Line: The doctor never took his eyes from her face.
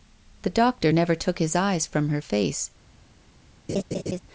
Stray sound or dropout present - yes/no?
yes